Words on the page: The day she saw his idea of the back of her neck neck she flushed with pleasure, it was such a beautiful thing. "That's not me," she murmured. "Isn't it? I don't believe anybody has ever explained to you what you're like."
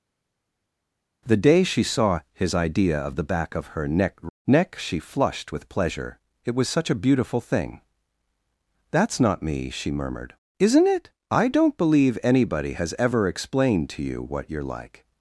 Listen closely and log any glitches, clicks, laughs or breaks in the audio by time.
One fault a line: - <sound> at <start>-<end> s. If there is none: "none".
none